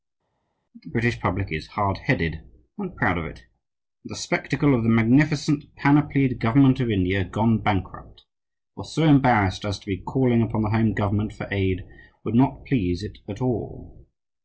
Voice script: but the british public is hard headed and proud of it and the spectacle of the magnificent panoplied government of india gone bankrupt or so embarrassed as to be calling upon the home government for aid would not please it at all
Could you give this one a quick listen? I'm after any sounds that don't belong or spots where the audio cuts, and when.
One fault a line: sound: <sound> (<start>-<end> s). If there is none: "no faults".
no faults